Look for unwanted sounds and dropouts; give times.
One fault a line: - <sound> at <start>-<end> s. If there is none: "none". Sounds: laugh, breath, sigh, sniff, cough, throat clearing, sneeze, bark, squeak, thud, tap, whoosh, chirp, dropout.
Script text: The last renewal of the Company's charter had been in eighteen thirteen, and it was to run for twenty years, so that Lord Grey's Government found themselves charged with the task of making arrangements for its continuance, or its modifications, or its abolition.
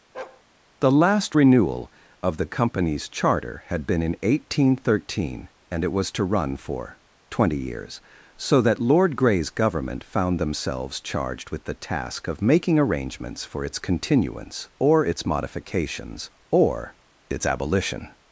- bark at 0.1-0.4 s